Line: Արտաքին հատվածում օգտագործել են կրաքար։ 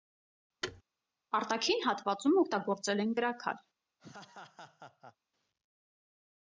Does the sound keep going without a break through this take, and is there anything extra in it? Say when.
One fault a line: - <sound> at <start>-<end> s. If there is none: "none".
- thud at 0.6-0.8 s
- laugh at 4.0-5.2 s